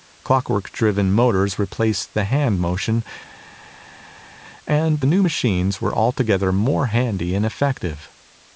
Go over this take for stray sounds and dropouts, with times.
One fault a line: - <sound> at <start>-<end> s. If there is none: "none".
none